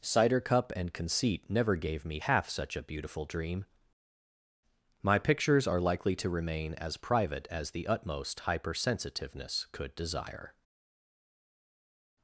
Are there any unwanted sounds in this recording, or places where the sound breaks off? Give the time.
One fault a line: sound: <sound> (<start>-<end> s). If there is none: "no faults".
no faults